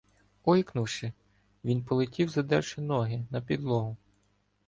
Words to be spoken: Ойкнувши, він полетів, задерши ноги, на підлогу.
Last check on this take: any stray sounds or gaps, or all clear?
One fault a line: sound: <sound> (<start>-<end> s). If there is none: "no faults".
no faults